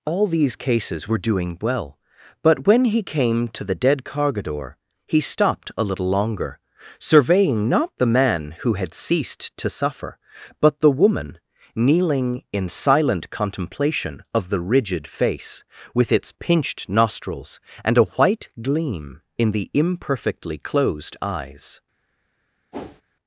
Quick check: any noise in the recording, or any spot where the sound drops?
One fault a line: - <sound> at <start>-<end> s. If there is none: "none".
- whoosh at 22.7-23.0 s